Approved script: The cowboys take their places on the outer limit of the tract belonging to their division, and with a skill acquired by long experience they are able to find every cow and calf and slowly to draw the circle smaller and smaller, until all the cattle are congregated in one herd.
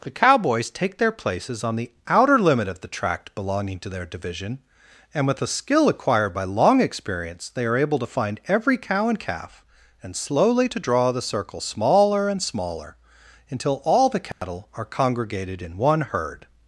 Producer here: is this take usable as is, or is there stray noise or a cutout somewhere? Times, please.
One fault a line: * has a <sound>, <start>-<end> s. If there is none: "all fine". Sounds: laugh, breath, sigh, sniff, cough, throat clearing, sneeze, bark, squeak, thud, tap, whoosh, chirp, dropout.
* has a dropout, 14.3-14.4 s